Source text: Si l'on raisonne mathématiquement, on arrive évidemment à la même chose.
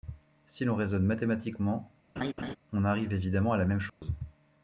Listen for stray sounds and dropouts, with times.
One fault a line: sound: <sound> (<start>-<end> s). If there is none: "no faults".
sound: laugh (2.2-2.6 s)
sound: dropout (3.9-4.0 s)